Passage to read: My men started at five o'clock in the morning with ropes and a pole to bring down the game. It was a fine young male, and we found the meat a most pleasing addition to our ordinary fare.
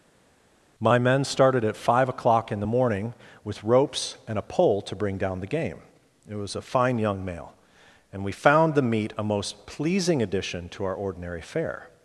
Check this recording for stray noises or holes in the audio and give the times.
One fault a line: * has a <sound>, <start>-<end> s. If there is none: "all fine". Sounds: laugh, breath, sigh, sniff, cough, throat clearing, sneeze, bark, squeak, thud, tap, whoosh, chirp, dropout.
all fine